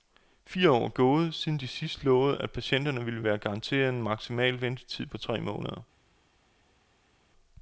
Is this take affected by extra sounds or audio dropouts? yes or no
no